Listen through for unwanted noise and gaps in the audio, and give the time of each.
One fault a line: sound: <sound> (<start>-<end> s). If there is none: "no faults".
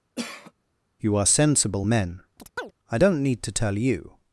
sound: cough (0.2-0.5 s)
sound: chirp (2.4-2.7 s)